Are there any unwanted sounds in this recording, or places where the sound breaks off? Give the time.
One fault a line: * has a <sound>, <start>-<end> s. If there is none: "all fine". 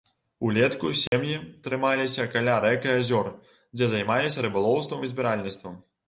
* has a dropout, 1.1-1.1 s